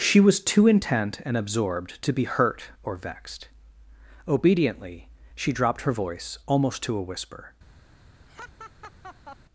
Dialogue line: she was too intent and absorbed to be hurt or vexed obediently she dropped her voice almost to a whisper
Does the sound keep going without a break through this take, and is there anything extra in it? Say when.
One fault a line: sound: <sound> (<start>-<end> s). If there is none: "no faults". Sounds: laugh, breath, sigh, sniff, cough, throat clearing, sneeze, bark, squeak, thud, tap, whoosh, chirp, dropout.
sound: laugh (8.3-9.4 s)